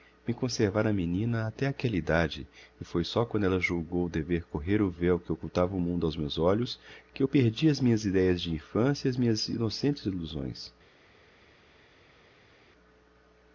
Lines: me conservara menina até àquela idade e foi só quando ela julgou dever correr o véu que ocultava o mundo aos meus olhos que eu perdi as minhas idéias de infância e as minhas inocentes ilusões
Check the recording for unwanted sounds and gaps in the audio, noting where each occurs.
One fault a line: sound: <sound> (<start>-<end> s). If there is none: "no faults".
no faults